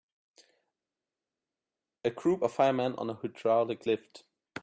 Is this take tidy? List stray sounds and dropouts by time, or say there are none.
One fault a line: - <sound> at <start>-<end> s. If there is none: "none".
none